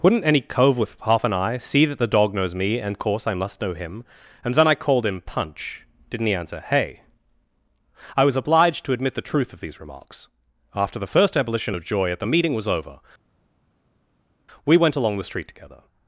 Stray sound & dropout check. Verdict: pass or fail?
pass